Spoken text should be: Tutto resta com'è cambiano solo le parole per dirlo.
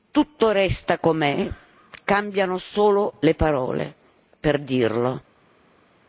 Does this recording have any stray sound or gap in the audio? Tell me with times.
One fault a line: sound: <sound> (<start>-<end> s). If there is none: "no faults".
no faults